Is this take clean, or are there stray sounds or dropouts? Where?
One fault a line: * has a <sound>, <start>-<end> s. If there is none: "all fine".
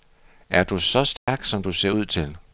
* has a dropout, 1.2-1.3 s